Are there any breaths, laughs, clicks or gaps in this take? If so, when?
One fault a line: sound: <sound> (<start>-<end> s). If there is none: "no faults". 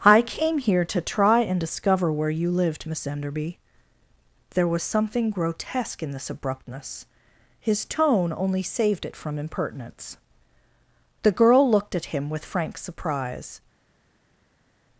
no faults